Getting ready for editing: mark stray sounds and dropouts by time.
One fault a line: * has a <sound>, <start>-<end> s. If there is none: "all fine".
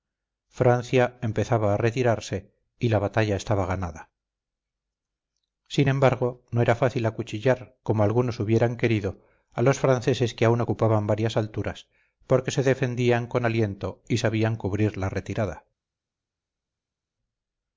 all fine